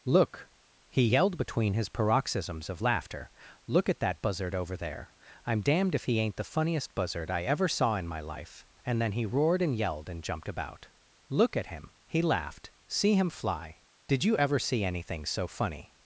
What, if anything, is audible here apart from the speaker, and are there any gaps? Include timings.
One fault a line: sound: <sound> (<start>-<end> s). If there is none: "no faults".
no faults